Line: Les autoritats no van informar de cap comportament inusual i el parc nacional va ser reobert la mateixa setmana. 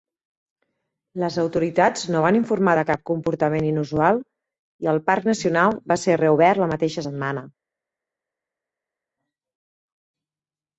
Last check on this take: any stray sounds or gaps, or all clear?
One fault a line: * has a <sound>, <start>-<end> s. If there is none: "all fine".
all fine